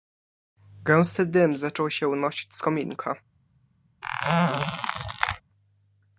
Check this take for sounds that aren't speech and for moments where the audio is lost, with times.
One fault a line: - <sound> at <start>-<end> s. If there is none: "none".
- squeak at 4.0-5.4 s